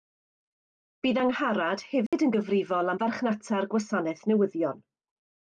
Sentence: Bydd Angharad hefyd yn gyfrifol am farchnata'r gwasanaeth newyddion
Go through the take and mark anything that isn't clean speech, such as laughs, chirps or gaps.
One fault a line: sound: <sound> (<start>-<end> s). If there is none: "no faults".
sound: dropout (2.1-2.1 s)